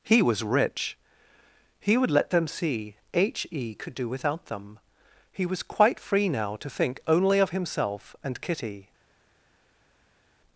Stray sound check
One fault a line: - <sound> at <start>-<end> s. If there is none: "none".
none